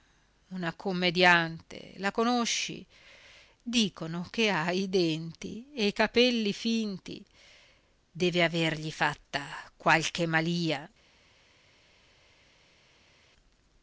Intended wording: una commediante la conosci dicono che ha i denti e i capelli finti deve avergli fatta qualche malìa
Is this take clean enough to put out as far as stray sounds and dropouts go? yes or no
yes